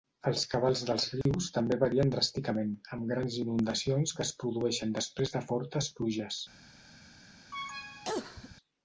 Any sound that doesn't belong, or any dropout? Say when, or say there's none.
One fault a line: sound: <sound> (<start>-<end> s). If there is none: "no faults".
sound: dropout (1.2-1.3 s)
sound: cough (7.5-8.6 s)